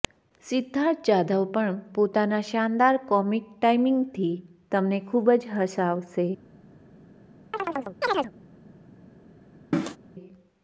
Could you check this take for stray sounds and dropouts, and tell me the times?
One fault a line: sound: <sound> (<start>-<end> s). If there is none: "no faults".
sound: chirp (7.5-8.3 s)
sound: cough (9.7-10.0 s)